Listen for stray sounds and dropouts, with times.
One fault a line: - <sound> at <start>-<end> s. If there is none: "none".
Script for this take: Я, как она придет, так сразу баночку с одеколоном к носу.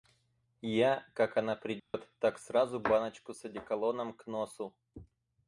- dropout at 1.8-1.9 s